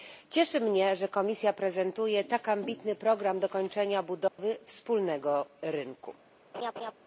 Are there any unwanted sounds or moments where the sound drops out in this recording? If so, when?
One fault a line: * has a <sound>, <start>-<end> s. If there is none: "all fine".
* has a dropout, 4.3-4.4 s
* has a laugh, 6.5-6.9 s